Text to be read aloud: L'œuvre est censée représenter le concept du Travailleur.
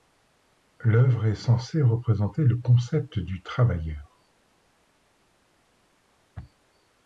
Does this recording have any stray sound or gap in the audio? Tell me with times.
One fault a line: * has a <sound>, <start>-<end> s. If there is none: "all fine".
all fine